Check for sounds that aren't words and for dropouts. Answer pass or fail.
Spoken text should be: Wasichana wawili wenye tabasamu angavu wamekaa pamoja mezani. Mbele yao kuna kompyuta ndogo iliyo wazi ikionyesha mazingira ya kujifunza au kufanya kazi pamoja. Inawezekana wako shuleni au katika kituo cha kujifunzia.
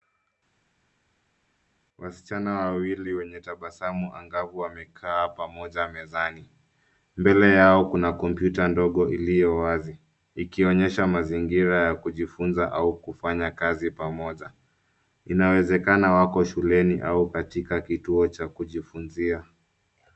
pass